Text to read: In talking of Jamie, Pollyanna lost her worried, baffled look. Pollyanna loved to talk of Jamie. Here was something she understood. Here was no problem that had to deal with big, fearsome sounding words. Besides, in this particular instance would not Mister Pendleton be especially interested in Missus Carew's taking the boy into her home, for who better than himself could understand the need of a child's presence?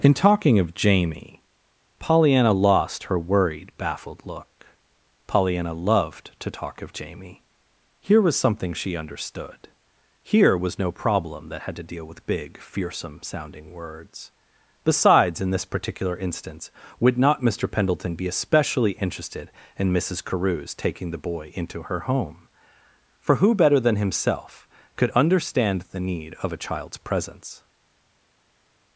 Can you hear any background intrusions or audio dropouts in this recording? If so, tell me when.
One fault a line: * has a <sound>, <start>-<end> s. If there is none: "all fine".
all fine